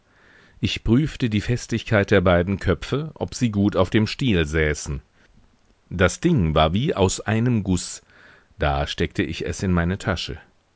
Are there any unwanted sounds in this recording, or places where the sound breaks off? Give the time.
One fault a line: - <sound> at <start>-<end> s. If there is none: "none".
none